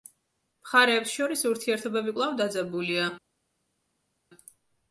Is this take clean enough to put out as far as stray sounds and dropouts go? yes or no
yes